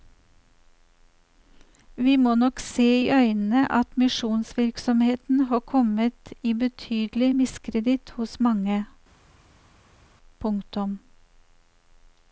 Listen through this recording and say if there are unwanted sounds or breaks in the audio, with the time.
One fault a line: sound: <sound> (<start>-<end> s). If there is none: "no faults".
no faults